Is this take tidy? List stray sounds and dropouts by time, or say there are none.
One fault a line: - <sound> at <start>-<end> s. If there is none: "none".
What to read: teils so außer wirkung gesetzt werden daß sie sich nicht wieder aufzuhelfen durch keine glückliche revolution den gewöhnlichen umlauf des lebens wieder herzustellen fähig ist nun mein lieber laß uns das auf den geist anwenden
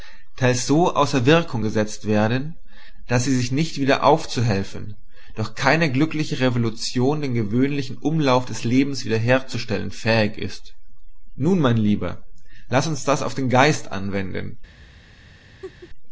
- laugh at 15.6-15.9 s